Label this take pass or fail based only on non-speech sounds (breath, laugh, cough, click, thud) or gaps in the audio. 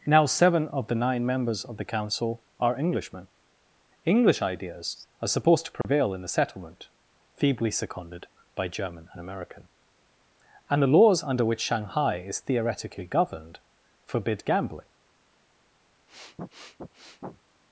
fail